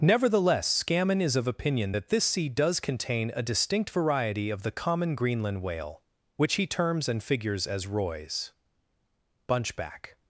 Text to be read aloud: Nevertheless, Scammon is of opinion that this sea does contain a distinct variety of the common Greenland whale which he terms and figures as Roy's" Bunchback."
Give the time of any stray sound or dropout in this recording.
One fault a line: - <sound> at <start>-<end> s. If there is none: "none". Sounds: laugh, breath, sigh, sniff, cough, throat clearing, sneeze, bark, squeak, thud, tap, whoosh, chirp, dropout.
none